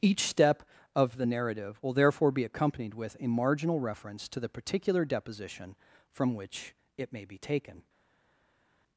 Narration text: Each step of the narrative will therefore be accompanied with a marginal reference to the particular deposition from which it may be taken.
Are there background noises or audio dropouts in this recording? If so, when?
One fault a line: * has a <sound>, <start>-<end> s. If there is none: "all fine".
all fine